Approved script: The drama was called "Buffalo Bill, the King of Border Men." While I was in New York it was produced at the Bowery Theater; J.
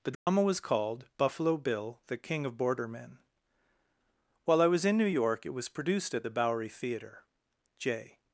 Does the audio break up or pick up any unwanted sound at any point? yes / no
yes